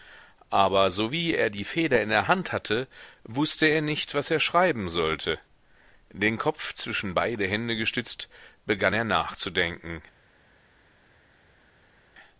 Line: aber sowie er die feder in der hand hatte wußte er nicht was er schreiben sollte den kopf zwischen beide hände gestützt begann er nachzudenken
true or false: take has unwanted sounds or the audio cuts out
false